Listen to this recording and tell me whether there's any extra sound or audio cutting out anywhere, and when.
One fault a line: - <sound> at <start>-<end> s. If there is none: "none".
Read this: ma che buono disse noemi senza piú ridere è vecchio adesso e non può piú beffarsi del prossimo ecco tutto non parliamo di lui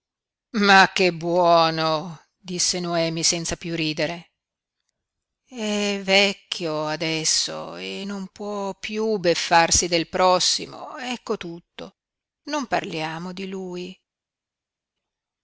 none